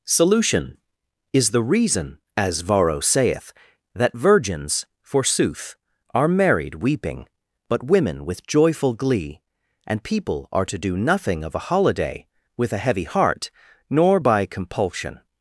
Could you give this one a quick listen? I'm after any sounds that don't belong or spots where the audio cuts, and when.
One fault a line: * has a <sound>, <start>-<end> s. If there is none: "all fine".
all fine